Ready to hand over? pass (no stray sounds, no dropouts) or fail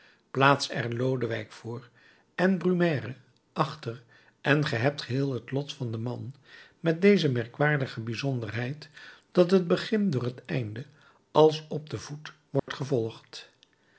fail